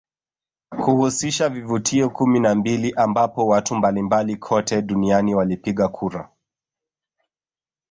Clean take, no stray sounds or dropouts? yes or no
yes